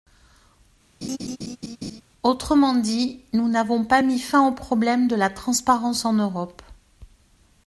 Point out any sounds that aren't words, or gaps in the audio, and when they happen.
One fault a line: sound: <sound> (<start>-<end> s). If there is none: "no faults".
sound: laugh (1.0-2.0 s)